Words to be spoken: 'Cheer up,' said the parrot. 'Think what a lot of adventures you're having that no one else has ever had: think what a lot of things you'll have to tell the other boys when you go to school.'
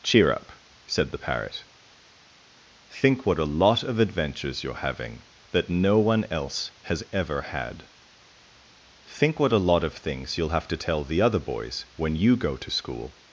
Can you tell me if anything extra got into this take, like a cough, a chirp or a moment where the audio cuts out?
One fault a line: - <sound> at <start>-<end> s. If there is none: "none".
none